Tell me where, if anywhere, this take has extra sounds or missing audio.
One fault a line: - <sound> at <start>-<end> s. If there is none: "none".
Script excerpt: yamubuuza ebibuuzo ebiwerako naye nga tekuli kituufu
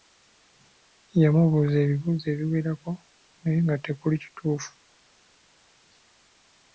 none